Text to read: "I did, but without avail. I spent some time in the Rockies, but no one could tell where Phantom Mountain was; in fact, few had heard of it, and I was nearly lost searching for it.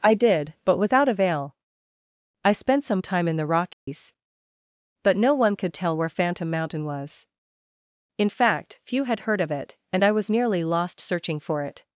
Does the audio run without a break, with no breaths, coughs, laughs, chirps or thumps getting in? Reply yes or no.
no